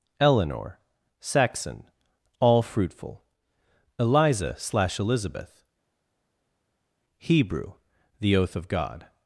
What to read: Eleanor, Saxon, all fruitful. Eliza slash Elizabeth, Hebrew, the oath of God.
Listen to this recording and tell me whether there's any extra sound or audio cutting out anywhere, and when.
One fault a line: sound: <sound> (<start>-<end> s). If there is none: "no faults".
no faults